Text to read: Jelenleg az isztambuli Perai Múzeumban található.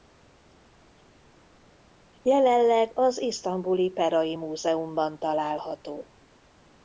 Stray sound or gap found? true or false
false